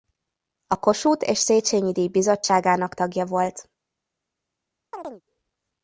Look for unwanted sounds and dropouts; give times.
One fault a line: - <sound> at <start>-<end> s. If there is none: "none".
- chirp at 4.9-5.2 s